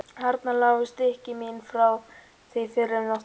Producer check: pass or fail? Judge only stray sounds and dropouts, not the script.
pass